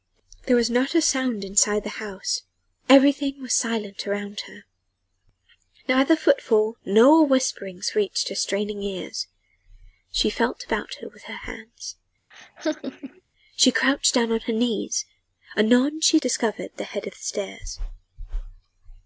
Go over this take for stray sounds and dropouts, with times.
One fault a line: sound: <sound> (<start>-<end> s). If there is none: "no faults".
sound: laugh (12.3-13.2 s)